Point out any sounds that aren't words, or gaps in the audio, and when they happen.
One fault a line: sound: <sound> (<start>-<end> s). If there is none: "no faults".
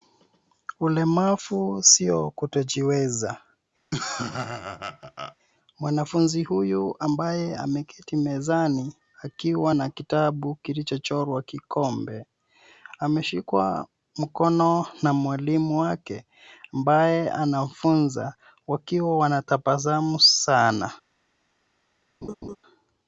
sound: laugh (3.9-5.4 s)
sound: laugh (22.2-22.6 s)